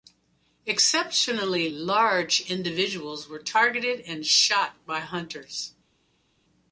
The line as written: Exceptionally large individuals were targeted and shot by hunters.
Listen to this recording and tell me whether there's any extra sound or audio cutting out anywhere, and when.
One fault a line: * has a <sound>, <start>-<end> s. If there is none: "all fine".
all fine